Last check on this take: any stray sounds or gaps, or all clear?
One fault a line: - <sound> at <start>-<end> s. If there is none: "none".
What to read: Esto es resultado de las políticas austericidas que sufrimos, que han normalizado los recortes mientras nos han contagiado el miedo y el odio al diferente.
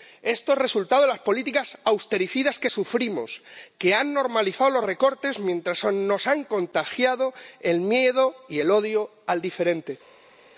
none